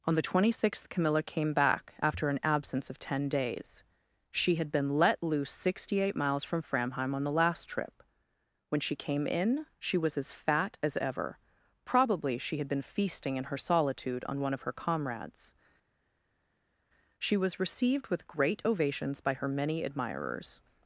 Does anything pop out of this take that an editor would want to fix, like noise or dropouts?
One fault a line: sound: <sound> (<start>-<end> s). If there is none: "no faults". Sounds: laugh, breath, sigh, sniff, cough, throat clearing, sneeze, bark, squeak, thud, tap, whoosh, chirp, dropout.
no faults